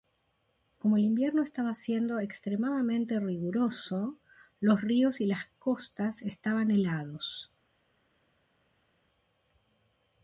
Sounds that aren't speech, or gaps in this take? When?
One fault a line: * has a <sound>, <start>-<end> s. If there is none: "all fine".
all fine